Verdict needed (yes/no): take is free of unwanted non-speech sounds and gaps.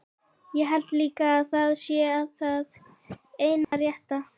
no